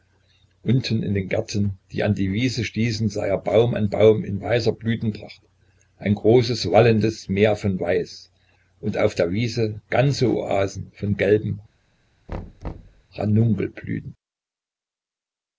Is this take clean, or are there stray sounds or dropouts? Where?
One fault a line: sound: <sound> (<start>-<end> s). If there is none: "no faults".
sound: thud (12.3-13.0 s)